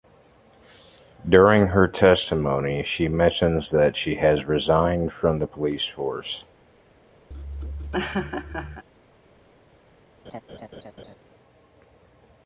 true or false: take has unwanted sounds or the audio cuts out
true